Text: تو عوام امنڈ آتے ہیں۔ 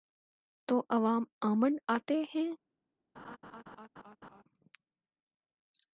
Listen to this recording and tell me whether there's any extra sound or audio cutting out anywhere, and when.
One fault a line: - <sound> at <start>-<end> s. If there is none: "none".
- laugh at 3.1-4.4 s